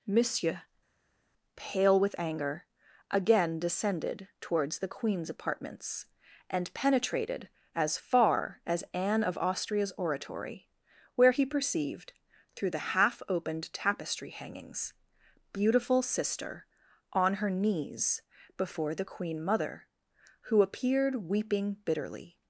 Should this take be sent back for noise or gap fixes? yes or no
no